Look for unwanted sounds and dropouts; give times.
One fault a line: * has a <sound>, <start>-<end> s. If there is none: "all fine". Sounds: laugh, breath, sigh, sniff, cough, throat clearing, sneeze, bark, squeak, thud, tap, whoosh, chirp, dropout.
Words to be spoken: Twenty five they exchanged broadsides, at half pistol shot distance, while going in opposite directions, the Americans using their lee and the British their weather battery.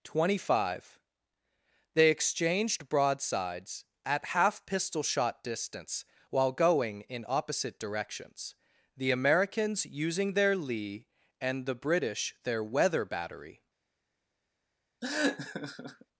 * has a laugh, 15.0-16.1 s